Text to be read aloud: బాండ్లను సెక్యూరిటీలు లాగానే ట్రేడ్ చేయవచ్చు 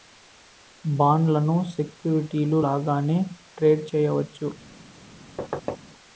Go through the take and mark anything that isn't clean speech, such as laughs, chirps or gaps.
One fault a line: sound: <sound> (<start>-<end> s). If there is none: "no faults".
sound: thud (5.4-5.8 s)